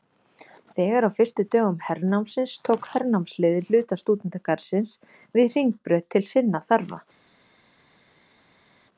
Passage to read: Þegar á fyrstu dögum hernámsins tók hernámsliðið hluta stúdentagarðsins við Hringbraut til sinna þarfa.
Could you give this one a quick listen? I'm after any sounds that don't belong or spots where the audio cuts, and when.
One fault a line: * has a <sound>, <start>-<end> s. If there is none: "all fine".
all fine